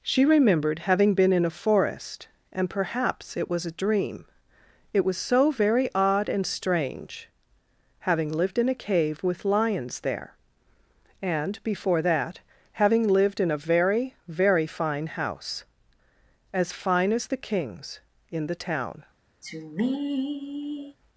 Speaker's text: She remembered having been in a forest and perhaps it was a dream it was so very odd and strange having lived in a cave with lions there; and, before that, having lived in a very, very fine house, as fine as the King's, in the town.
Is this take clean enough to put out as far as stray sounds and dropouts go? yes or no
no